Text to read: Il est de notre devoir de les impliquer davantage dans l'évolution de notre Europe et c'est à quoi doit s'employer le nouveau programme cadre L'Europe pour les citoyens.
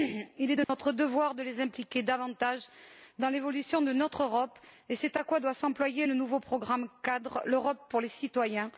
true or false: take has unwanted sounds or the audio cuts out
true